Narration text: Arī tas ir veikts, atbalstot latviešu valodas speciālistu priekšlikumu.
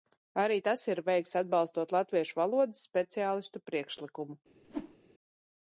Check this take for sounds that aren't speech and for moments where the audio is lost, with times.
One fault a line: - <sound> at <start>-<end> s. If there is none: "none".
- whoosh at 4.6-5.0 s